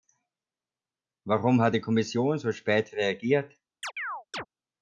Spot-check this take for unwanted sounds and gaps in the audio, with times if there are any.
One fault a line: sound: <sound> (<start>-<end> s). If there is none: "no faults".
sound: chirp (3.8-4.5 s)